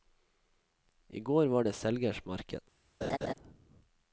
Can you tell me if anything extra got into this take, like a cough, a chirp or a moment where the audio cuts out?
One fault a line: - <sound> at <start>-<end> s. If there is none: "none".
- laugh at 3.0-3.3 s